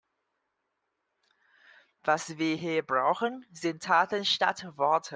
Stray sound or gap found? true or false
false